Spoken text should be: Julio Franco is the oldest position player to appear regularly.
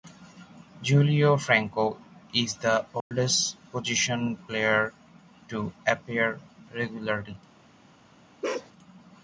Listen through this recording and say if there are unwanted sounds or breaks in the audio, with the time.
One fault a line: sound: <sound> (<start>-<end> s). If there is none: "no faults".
sound: dropout (3.0-3.1 s)
sound: bark (8.4-8.7 s)